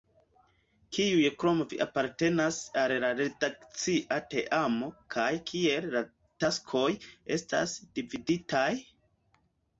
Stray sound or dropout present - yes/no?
no